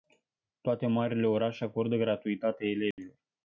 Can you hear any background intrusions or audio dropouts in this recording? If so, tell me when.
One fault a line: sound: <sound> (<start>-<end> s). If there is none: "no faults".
sound: dropout (2.9-3.0 s)